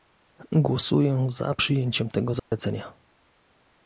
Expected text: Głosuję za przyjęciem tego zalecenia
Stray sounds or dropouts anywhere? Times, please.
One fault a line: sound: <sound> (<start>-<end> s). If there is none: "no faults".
sound: dropout (2.4-2.5 s)